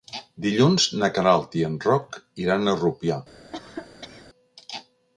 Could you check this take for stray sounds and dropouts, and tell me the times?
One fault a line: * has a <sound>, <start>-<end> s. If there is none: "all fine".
* has a cough, 3.5-4.3 s